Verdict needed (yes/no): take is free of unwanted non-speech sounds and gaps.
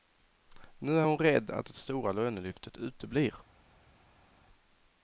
yes